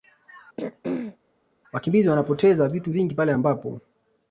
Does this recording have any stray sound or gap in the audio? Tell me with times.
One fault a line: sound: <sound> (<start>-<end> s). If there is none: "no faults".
sound: throat clearing (0.6-1.2 s)